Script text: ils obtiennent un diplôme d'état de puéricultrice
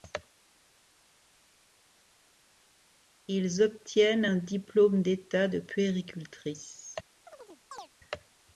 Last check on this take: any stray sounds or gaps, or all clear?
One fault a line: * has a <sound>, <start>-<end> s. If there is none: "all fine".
* has a chirp, 7.3-7.9 s